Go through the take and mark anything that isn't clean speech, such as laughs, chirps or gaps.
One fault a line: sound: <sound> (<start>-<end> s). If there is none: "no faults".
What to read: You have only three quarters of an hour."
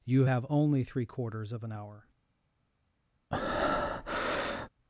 sound: breath (3.3-4.7 s)